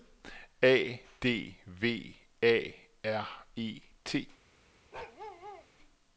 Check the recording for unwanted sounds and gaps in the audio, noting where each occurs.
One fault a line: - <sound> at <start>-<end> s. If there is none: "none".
- bark at 4.9-5.7 s